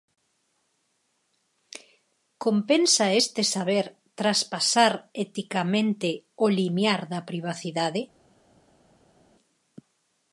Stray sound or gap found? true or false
false